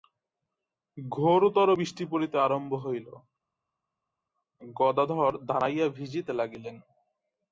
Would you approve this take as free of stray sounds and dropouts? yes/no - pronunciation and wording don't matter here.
yes